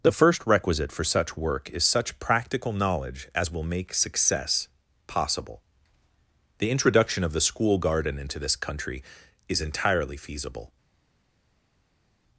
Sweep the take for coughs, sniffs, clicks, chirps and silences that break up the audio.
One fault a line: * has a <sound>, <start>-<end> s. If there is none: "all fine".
all fine